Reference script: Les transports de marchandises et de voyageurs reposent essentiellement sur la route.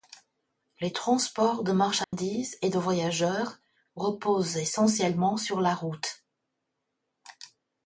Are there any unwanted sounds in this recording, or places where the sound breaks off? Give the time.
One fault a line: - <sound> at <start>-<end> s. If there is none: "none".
- dropout at 2.0-2.1 s